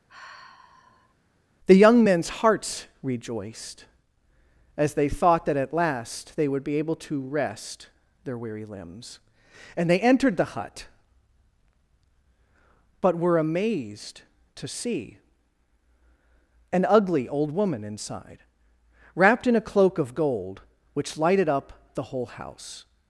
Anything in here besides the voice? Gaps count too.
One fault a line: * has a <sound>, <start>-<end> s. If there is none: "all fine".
* has a sigh, 0.1-1.1 s